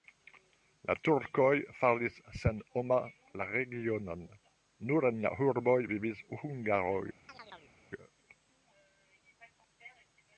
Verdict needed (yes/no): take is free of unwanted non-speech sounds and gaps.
no